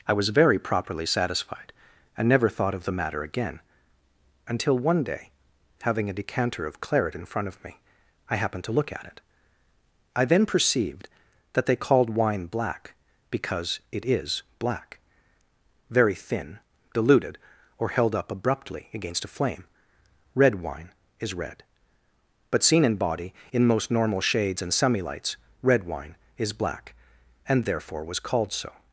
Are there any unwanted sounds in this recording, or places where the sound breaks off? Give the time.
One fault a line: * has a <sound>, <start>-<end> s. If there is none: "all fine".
all fine